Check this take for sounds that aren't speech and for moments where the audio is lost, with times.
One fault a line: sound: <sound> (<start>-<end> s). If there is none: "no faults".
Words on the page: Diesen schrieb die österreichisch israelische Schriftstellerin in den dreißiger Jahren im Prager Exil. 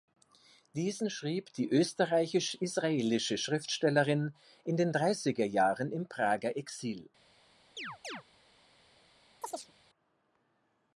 sound: chirp (7.8-8.2 s)
sound: chirp (9.4-9.7 s)